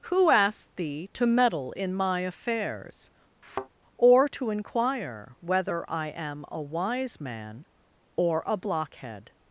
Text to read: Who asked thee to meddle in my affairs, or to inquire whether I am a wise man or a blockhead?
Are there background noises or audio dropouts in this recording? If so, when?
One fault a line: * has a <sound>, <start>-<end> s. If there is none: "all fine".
* has a thud, 3.4-3.7 s